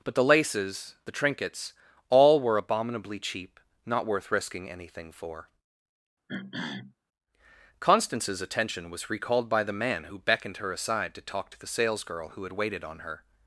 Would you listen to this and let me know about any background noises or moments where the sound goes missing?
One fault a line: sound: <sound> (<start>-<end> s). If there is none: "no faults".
sound: throat clearing (6.3-7.0 s)